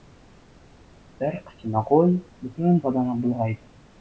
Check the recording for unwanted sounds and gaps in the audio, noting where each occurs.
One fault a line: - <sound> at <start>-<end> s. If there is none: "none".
none